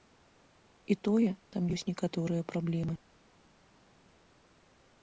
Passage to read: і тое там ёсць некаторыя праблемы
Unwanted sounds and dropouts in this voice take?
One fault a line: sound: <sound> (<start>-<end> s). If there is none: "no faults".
no faults